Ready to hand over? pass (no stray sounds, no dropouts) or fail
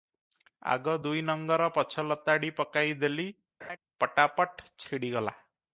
fail